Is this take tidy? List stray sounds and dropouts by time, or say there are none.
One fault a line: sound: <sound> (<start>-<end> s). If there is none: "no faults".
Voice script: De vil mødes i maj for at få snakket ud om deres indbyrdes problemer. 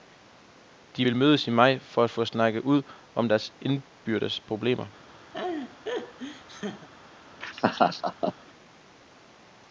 sound: laugh (5.3-6.9 s)
sound: laugh (7.4-8.3 s)